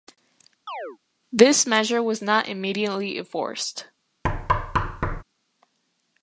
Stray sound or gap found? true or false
true